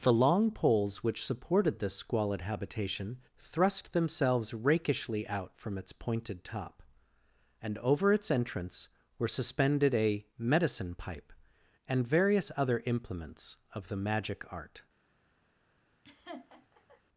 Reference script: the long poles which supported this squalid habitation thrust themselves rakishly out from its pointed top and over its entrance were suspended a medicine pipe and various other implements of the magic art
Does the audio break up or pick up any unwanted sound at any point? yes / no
yes